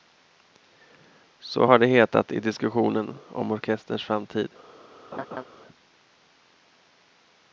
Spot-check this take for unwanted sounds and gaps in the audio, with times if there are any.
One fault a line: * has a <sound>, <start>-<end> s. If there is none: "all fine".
* has a laugh, 5.1-5.4 s